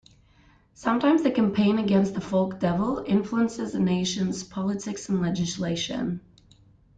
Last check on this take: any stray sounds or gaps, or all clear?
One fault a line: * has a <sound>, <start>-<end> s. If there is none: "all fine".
all fine